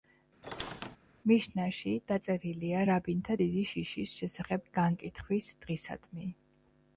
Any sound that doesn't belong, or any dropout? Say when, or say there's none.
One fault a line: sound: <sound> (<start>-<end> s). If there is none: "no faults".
sound: squeak (0.4-1.0 s)